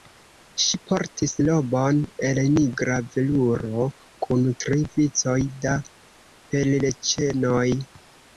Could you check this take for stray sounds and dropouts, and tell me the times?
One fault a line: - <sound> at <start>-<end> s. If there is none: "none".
none